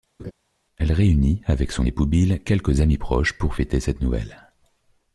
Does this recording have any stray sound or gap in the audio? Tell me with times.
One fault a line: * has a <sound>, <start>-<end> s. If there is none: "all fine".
* has a laugh, 0.2-0.3 s